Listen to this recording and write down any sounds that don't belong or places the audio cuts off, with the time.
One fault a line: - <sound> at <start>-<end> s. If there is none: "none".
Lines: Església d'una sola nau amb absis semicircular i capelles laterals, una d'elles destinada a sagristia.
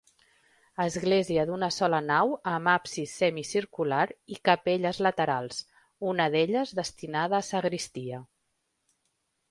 none